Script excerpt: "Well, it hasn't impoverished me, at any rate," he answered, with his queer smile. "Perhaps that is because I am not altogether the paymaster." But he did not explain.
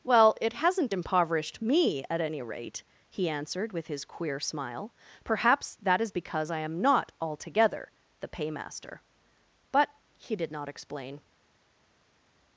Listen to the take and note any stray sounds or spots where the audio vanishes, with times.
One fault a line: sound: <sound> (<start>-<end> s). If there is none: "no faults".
no faults